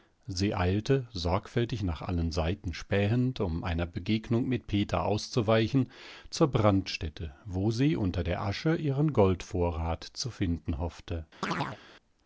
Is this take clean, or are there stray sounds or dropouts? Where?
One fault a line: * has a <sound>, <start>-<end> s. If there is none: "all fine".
* has a chirp, 11.4-11.8 s